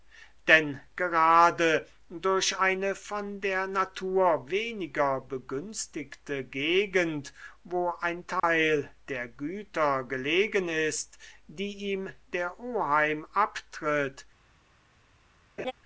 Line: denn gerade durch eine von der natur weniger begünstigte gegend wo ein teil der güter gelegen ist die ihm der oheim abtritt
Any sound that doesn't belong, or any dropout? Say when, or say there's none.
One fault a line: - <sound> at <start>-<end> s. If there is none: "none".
- dropout at 8.4-8.4 s
- laugh at 15.6-15.7 s